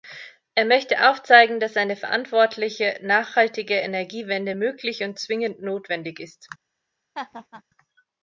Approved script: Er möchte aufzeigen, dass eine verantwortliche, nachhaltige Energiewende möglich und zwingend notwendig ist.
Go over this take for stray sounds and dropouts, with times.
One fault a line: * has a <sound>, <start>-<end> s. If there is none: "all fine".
* has a laugh, 7.1-7.6 s